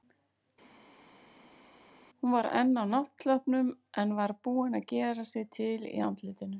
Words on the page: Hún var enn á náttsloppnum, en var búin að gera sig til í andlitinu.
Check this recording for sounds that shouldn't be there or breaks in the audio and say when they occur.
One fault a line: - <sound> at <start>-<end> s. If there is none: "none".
none